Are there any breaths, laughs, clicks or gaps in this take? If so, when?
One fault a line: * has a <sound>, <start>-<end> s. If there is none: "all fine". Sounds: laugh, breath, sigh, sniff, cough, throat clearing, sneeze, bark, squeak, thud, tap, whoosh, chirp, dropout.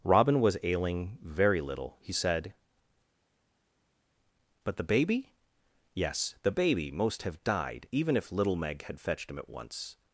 all fine